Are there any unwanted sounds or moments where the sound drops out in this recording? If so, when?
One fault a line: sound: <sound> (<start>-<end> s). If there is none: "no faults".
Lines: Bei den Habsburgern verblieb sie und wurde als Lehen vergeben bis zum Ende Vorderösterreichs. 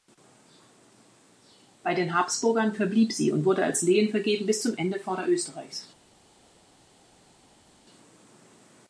no faults